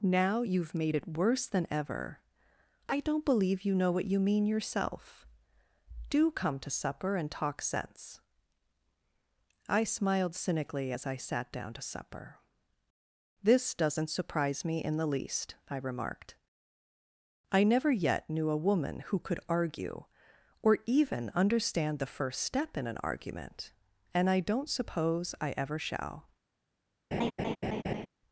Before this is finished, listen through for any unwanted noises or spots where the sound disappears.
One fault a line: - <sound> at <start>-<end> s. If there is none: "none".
- laugh at 27.1-28.1 s